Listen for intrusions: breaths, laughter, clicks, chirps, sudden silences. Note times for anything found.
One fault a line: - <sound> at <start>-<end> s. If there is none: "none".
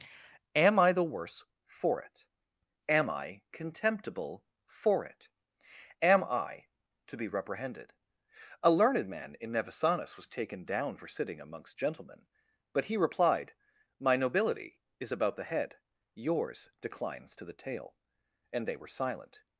none